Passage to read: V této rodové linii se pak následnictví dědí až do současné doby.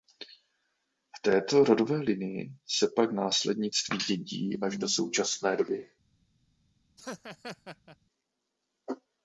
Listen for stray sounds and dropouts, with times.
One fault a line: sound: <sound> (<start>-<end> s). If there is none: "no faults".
sound: laugh (7.0-8.0 s)